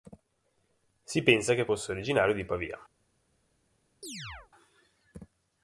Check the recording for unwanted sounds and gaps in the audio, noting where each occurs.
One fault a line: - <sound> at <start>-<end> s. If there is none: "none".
- chirp at 4.0-4.5 s